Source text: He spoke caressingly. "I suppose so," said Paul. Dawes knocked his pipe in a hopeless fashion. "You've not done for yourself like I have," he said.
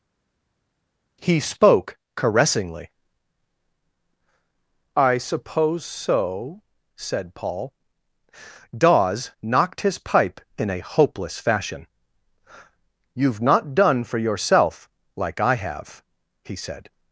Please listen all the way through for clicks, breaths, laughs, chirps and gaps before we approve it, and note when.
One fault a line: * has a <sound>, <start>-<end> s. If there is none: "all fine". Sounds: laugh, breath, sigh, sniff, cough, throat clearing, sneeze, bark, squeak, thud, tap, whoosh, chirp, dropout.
all fine